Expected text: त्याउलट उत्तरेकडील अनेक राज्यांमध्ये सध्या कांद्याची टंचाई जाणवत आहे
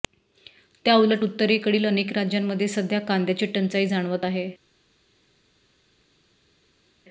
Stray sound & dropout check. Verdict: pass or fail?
pass